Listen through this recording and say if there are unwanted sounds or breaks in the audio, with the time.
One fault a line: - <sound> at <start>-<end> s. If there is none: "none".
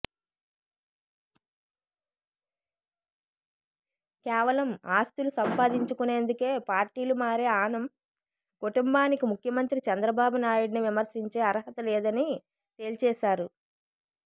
none